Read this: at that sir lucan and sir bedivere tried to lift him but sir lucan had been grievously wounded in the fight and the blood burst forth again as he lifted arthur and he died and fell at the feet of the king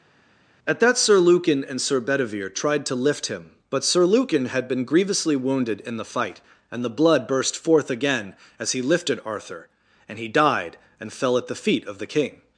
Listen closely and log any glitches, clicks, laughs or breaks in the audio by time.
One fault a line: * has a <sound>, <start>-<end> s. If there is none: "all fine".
all fine